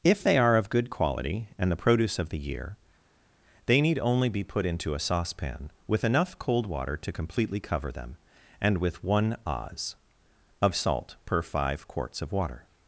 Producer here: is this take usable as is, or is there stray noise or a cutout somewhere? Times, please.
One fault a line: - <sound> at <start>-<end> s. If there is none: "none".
none